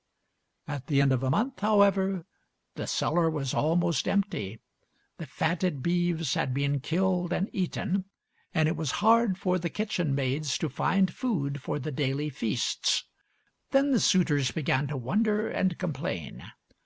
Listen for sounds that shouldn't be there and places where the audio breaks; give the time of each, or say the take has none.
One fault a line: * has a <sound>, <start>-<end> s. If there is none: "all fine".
all fine